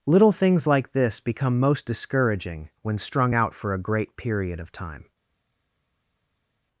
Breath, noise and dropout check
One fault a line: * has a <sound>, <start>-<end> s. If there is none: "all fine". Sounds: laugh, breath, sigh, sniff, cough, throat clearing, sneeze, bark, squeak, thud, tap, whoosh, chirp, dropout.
all fine